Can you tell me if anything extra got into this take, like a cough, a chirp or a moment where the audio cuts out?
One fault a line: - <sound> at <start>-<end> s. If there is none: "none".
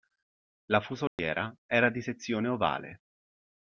- dropout at 1.1-1.2 s